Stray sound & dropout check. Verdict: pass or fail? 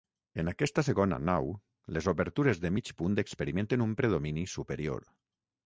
pass